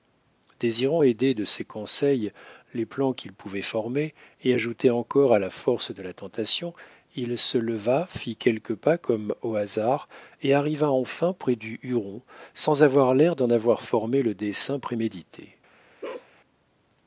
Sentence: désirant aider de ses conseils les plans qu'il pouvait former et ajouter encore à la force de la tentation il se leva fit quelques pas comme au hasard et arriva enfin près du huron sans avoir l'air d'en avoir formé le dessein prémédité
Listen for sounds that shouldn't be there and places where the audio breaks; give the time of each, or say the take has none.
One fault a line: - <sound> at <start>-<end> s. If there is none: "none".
- bark at 16.0-16.3 s